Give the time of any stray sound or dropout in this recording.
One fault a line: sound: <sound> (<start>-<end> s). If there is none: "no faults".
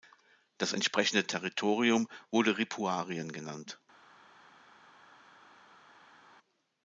no faults